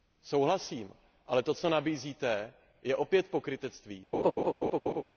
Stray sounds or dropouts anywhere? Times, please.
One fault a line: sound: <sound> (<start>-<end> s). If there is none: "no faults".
sound: laugh (4.1-5.0 s)